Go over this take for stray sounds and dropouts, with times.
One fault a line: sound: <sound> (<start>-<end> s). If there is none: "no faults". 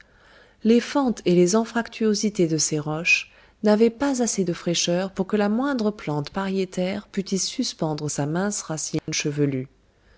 sound: dropout (9.0-9.1 s)